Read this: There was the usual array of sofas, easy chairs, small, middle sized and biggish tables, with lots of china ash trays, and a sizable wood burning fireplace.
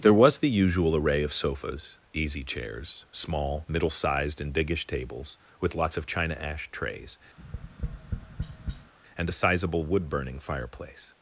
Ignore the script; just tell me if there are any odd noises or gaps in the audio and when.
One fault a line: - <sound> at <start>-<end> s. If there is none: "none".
- tap at 7.4-8.9 s